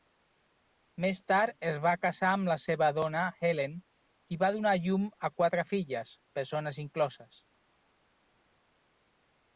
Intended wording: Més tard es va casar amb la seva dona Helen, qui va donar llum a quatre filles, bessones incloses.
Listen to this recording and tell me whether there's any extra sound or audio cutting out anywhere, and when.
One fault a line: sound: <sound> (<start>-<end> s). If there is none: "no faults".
no faults